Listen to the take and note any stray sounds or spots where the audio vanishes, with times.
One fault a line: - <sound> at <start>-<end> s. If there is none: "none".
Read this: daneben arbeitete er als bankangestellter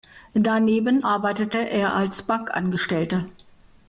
none